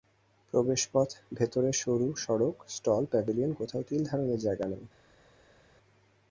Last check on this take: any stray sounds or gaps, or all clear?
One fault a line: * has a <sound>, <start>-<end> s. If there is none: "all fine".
all fine